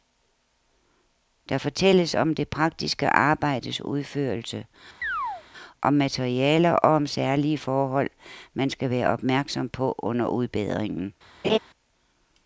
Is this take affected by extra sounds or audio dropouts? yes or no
yes